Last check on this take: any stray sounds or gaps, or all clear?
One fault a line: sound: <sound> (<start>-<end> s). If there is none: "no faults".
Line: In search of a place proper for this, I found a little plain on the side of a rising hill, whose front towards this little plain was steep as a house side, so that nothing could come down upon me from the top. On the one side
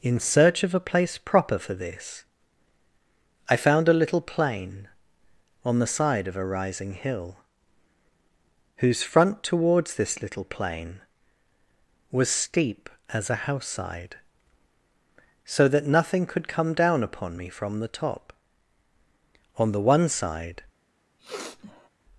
sound: sniff (21.2-21.9 s)